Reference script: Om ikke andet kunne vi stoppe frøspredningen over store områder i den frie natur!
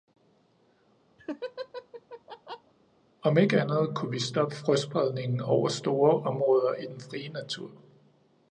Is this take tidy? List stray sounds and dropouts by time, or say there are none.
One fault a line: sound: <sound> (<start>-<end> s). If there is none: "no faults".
sound: laugh (1.2-2.7 s)